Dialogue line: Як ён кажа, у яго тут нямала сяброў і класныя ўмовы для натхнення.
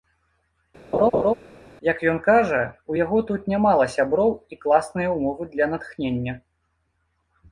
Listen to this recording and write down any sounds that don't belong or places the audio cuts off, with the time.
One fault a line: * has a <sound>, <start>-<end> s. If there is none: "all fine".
* has a laugh, 0.9-1.3 s